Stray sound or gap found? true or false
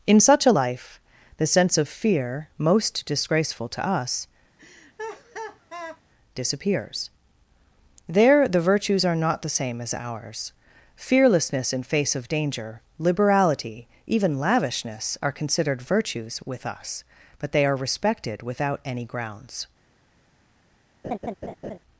true